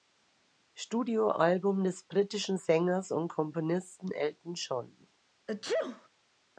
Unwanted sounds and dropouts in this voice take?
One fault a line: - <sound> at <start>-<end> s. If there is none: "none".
- sneeze at 5.5-6.1 s